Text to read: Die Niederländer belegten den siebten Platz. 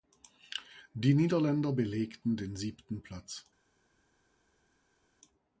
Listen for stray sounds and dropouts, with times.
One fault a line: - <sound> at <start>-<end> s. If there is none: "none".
none